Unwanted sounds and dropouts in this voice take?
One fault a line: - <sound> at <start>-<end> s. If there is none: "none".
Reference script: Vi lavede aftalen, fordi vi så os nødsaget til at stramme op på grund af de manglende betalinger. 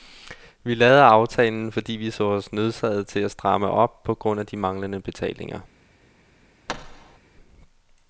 - thud at 6.7-7.2 s